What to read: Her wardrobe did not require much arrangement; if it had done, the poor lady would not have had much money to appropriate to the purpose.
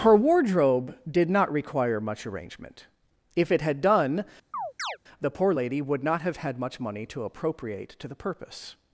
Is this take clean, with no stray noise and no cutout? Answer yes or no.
no